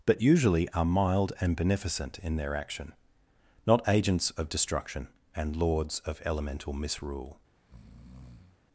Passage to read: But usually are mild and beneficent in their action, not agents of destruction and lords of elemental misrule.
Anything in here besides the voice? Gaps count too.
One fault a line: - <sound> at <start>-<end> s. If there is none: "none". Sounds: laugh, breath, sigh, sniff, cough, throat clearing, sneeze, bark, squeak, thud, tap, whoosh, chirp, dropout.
- breath at 7.6-8.6 s